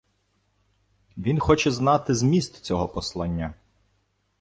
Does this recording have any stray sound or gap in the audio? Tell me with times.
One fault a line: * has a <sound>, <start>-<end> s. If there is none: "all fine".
all fine